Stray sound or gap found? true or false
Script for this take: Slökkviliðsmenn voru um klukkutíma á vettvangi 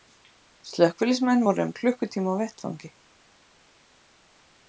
false